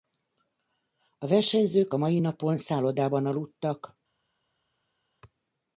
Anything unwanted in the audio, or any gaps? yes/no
no